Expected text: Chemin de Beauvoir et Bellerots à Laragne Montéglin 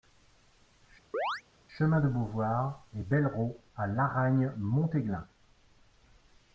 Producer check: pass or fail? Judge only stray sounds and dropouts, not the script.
fail